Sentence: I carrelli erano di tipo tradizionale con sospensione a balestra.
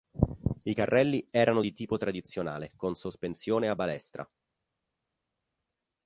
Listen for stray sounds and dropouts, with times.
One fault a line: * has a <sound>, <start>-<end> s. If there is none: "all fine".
all fine